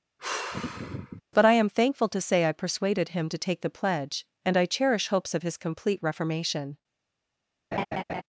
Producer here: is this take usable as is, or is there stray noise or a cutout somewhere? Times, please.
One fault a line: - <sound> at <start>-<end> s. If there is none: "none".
- sigh at 0.2-1.2 s
- laugh at 7.7-8.2 s